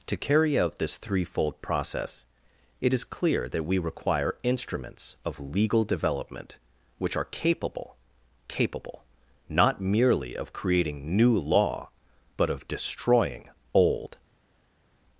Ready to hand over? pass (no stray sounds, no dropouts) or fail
pass